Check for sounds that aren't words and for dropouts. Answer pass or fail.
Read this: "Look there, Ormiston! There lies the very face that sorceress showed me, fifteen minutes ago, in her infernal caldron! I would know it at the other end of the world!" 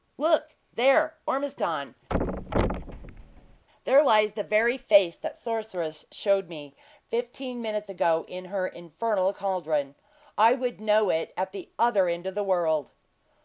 fail